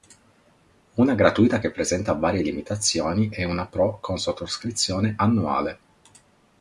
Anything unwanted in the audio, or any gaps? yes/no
no